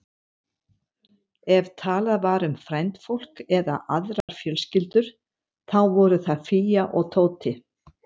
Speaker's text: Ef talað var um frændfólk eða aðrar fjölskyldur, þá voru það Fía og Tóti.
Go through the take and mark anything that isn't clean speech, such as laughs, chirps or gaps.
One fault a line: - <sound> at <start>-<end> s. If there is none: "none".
- dropout at 4.2-4.3 s